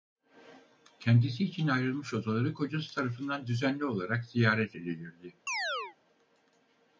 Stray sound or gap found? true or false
true